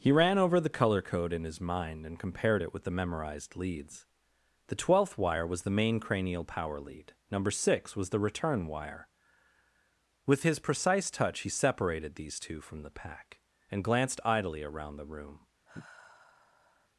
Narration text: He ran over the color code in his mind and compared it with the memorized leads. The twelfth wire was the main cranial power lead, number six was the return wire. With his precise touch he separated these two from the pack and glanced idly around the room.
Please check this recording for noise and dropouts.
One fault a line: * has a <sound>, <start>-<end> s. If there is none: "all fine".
* has a sigh, 15.7-16.9 s